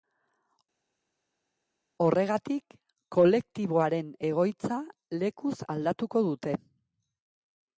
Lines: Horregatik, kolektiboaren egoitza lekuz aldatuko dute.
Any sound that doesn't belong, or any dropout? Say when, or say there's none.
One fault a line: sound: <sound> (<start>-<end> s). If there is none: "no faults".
no faults